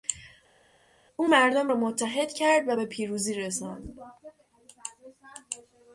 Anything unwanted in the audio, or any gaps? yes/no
no